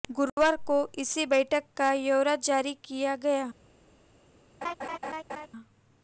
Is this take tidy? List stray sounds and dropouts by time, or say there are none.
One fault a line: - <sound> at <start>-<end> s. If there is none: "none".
- laugh at 4.6-5.5 s